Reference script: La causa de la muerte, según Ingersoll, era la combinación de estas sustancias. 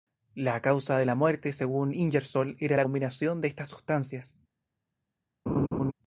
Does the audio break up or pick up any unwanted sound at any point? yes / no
yes